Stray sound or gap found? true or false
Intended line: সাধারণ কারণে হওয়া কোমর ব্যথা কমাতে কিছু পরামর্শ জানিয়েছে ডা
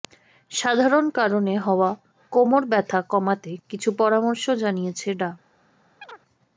true